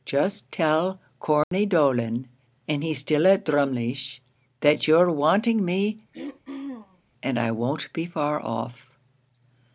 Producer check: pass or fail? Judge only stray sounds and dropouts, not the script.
fail